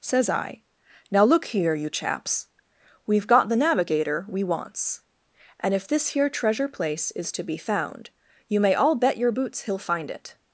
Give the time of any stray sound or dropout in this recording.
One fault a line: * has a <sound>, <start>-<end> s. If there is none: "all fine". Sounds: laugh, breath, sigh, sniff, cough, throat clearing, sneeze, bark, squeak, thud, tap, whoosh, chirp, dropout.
all fine